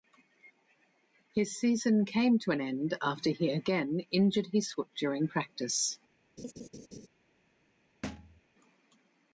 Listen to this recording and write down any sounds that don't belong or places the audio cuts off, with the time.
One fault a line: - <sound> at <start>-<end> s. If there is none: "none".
- laugh at 6.4-7.1 s
- thud at 8.0-8.4 s